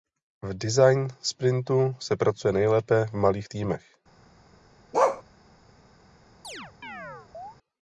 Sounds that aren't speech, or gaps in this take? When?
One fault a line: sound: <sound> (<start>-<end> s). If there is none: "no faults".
sound: bark (4.9-5.2 s)
sound: chirp (6.4-7.6 s)